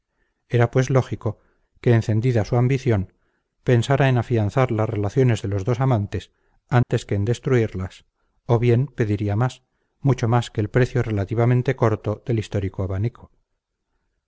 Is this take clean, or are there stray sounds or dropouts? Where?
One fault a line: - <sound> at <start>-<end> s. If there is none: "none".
- dropout at 6.8-6.9 s